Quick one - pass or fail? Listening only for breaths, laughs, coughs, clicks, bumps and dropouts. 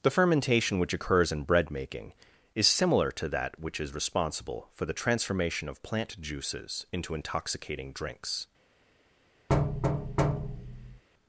fail